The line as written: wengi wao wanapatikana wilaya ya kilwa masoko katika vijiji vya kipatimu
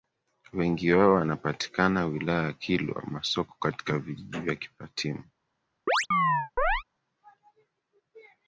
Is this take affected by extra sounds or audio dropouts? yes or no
yes